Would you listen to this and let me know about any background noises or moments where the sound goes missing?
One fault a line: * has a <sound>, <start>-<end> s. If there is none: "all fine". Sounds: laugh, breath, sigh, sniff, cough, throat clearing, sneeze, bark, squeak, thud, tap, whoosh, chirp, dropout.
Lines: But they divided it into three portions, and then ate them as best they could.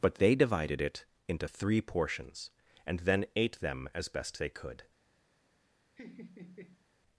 * has a laugh, 6.0-6.9 s